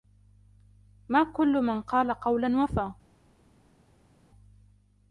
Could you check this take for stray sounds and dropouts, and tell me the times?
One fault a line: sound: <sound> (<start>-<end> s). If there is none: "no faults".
no faults